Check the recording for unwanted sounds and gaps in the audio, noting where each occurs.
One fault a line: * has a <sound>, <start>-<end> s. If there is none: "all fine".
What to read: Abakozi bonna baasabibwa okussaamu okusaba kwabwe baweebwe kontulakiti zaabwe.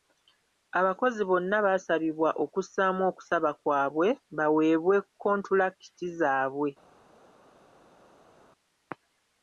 all fine